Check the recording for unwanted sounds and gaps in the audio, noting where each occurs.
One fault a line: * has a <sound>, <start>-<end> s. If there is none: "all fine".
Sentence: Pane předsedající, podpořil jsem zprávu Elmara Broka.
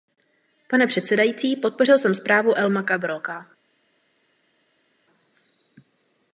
all fine